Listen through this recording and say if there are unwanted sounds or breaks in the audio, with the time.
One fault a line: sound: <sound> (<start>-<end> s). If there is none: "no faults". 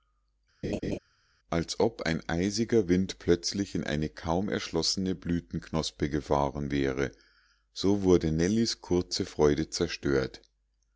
sound: laugh (0.6-1.0 s)